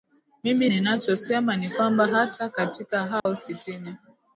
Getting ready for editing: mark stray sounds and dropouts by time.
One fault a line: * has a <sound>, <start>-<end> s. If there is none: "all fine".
* has a dropout, 3.2-3.3 s